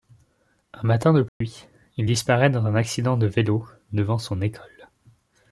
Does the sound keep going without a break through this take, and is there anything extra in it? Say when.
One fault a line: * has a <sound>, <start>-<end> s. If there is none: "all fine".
* has a dropout, 1.3-1.4 s